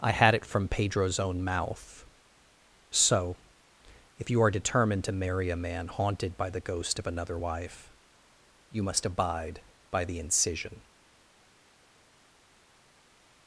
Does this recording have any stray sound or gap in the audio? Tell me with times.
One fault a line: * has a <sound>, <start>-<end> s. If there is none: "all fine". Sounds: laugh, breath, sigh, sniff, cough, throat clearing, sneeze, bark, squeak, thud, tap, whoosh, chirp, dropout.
all fine